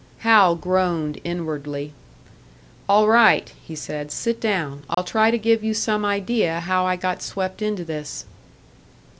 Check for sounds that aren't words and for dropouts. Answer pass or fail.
fail